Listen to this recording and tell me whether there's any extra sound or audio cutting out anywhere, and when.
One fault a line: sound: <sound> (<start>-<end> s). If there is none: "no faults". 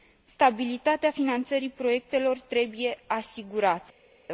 no faults